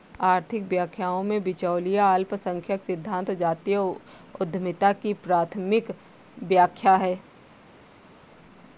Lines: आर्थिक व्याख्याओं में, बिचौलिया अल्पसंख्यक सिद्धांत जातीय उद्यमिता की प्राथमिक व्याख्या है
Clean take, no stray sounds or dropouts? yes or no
yes